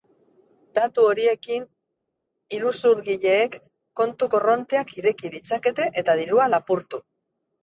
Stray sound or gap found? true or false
false